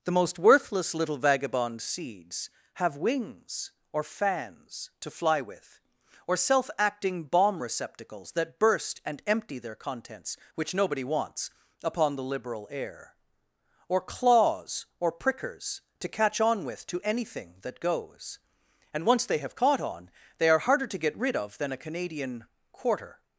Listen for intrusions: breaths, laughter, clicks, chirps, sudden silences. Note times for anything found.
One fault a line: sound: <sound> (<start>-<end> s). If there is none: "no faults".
no faults